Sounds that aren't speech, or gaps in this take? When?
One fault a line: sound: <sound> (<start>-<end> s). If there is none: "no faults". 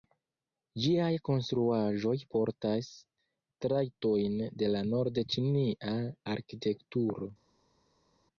no faults